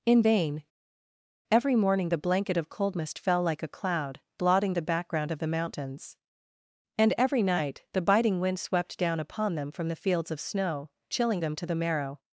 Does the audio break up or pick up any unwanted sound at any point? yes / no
no